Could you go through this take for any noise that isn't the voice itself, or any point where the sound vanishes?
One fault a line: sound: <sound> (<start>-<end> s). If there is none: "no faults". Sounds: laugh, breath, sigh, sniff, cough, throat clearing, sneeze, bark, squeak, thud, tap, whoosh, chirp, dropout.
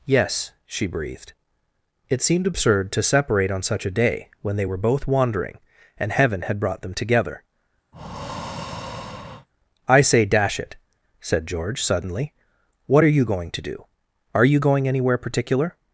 sound: breath (7.9-9.5 s)